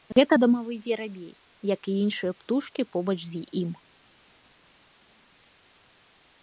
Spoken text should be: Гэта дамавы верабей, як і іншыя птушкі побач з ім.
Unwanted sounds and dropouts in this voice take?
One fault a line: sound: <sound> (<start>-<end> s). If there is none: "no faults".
no faults